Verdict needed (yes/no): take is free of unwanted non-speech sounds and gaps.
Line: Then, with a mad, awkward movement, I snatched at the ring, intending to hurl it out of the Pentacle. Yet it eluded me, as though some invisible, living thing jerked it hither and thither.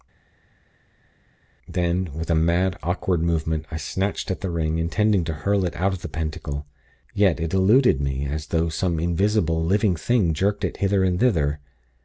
yes